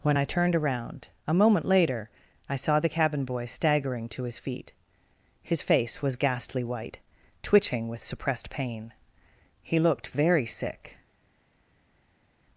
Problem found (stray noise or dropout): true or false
false